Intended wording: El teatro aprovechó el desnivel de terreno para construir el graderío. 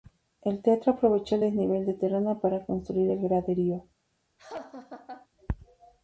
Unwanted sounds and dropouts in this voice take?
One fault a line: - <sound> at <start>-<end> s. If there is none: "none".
- laugh at 4.4-5.3 s